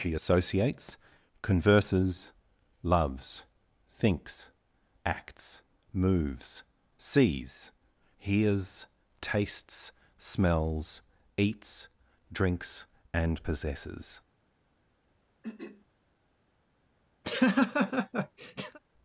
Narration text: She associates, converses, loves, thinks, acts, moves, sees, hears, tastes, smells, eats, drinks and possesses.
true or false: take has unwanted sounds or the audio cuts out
true